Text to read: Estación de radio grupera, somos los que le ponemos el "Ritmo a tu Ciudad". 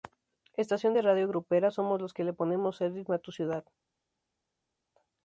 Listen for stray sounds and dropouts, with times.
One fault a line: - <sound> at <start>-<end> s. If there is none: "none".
none